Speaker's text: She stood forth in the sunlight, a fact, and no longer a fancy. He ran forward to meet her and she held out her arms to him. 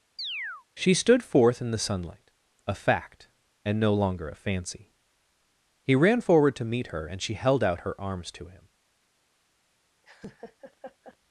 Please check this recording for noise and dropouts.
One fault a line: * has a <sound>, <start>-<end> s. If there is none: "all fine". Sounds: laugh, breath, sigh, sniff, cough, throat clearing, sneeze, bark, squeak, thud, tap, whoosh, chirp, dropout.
* has a chirp, 0.2-0.7 s
* has a laugh, 10.0-11.2 s